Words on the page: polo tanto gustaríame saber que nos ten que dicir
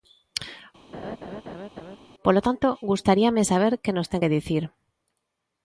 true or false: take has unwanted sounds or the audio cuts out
true